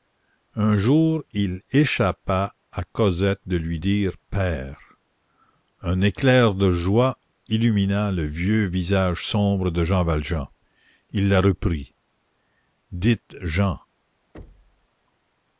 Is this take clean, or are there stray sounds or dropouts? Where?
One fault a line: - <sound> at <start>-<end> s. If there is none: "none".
- thud at 14.3-14.9 s